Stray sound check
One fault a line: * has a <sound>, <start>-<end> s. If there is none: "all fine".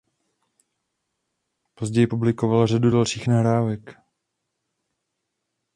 all fine